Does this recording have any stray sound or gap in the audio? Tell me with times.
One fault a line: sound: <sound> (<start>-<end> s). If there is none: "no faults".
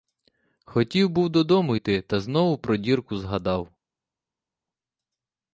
no faults